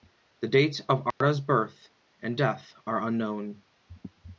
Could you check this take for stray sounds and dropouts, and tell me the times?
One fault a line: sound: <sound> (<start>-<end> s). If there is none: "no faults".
sound: dropout (1.1-1.2 s)